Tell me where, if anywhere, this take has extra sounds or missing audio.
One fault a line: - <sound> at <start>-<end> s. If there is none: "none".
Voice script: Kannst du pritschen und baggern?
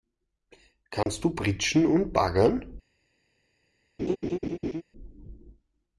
- dropout at 1.0-1.1 s
- laugh at 4.0-4.8 s